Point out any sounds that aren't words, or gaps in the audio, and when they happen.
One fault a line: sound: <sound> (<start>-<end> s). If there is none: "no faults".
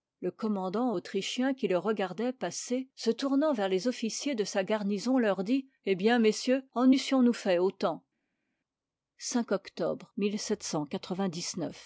no faults